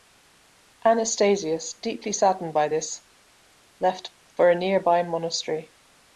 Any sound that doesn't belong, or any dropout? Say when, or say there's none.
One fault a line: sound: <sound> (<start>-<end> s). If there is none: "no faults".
no faults